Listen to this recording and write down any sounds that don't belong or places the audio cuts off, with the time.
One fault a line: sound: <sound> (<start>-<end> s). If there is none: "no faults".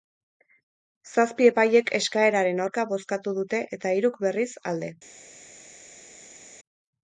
no faults